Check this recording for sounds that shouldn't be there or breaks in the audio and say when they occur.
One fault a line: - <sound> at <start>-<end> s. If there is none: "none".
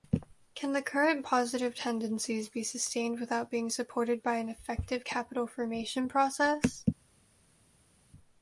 none